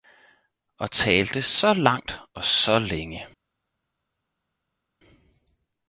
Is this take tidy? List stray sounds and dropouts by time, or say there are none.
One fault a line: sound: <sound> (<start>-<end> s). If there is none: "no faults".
no faults